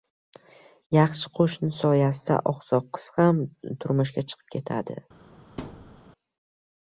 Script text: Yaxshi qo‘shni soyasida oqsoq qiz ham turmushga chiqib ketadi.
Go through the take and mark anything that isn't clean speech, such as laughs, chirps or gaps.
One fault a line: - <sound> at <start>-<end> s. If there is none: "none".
- thud at 5.6-6.0 s